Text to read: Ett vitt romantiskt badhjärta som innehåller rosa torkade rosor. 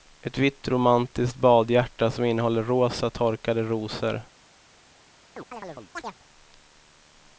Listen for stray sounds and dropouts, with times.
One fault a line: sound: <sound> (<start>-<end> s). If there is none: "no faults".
sound: chirp (5.4-6.2 s)